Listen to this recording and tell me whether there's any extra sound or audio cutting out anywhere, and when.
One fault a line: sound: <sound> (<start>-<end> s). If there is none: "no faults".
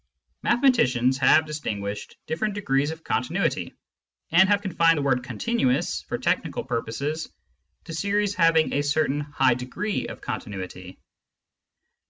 no faults